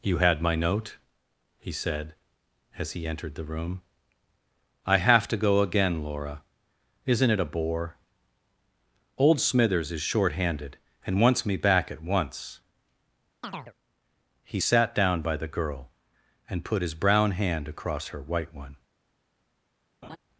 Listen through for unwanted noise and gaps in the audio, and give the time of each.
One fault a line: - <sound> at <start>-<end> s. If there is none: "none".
- chirp at 13.4-13.7 s
- laugh at 20.0-20.2 s